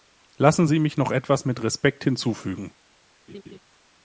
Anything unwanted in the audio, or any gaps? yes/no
yes